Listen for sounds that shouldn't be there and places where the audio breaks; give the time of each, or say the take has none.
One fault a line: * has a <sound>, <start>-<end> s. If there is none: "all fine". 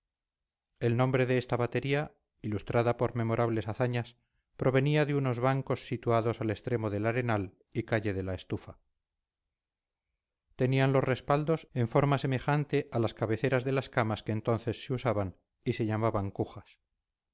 all fine